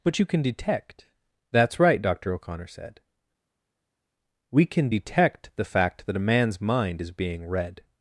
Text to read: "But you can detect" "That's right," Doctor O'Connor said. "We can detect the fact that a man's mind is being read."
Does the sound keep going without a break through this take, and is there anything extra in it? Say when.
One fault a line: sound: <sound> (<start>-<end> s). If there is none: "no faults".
no faults